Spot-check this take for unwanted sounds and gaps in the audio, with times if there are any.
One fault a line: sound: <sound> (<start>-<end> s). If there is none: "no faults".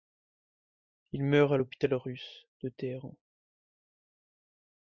no faults